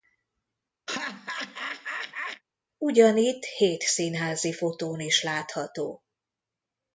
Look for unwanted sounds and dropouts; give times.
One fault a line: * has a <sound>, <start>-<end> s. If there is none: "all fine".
* has a laugh, 0.9-2.4 s